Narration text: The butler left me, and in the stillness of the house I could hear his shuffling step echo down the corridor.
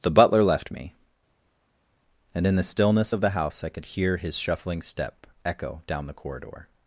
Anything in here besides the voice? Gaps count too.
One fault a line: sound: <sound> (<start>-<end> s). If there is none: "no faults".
no faults